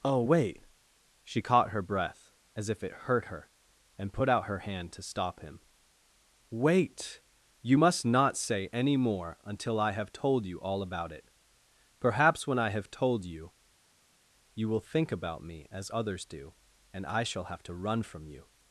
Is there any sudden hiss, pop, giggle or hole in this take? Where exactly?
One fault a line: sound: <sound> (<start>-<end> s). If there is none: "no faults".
no faults